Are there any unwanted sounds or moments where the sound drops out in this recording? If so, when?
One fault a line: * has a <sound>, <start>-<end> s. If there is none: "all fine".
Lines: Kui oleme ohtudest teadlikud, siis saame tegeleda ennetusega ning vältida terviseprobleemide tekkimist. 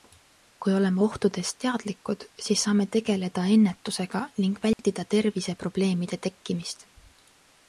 * has a dropout, 4.7-4.8 s